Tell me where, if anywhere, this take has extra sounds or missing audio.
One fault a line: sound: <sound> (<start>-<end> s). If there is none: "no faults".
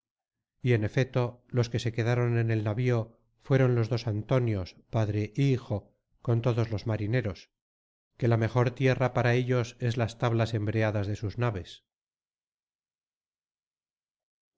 no faults